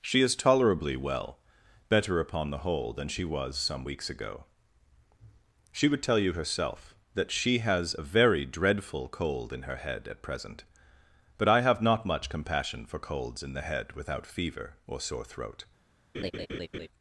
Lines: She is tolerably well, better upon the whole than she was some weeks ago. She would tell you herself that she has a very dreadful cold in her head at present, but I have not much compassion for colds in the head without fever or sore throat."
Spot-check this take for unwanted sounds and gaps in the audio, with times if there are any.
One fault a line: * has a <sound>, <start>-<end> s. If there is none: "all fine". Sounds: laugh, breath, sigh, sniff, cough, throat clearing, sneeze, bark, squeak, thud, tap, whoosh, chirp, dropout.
* has a laugh, 16.1-16.9 s